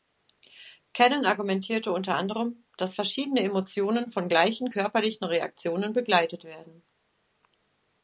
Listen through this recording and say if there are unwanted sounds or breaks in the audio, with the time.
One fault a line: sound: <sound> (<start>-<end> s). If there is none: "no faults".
no faults